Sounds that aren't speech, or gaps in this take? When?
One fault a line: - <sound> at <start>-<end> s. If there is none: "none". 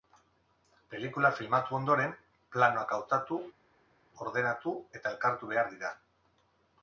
none